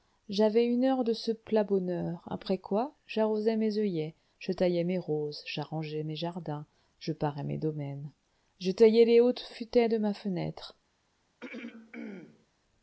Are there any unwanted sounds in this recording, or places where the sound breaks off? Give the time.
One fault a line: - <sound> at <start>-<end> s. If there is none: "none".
- throat clearing at 11.4-12.5 s